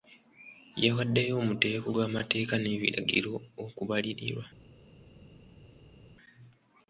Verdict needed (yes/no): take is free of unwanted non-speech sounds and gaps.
yes